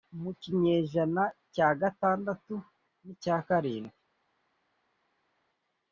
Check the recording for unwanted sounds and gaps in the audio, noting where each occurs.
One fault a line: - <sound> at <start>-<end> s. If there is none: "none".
none